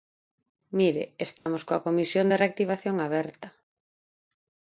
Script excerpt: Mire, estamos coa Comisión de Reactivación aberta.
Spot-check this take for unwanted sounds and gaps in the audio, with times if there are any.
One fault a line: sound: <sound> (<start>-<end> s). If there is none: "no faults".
sound: dropout (1.4-1.5 s)